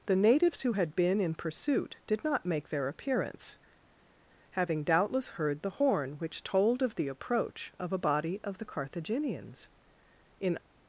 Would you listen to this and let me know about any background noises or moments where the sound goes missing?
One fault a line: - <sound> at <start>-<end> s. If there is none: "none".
none